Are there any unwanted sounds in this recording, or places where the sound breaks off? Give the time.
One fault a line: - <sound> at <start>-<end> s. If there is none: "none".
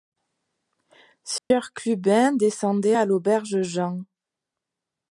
- dropout at 1.4-1.5 s